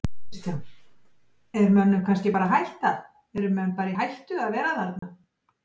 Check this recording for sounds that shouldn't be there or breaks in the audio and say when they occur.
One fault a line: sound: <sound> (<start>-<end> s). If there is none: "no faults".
sound: dropout (5.0-5.0 s)